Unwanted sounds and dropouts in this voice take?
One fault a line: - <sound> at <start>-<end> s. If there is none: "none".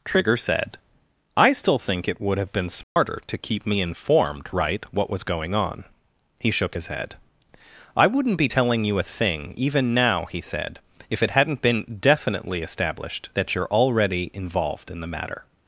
- dropout at 2.8-3.0 s